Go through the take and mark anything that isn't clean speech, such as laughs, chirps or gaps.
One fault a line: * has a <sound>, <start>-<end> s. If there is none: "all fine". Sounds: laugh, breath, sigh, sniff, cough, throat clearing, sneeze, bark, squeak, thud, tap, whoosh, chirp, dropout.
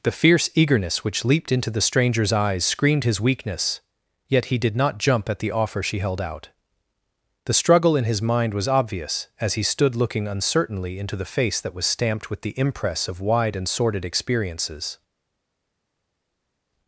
all fine